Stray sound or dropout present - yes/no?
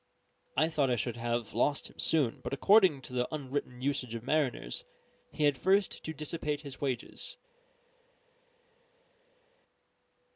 no